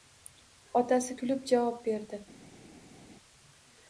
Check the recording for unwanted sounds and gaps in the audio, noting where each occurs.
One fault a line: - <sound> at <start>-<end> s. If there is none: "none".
none